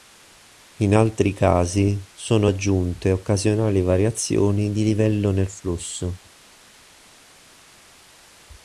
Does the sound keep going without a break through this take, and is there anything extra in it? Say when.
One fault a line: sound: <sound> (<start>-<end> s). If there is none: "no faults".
no faults